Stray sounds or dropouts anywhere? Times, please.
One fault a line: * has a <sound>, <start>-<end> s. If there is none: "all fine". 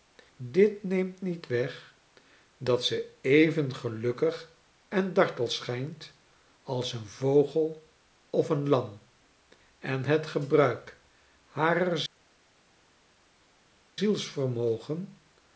all fine